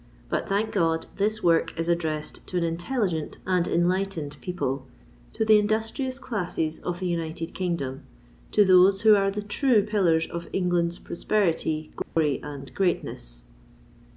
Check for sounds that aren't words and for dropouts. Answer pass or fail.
fail